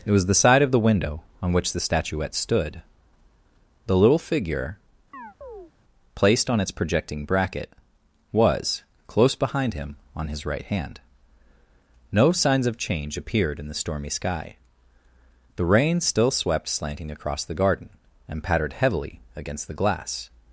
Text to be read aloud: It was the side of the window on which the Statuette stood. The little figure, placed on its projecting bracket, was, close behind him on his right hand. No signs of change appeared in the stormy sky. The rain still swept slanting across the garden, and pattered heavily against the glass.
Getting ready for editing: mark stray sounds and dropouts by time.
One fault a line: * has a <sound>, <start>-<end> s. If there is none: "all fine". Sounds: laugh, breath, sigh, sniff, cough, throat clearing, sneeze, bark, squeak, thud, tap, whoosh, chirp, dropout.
* has a chirp, 5.1-5.7 s